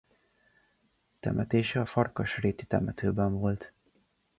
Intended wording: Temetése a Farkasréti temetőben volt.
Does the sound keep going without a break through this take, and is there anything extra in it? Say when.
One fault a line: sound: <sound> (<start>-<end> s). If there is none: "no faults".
no faults